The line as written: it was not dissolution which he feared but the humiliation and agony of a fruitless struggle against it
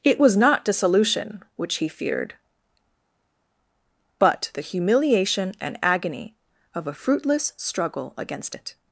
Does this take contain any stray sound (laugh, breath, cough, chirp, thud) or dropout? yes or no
no